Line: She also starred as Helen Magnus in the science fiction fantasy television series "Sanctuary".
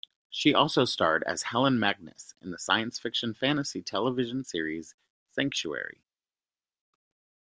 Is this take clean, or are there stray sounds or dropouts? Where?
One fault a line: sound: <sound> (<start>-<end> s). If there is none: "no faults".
no faults